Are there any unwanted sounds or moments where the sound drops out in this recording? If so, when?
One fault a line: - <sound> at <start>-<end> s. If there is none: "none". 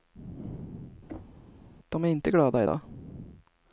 - thud at 1.1-1.5 s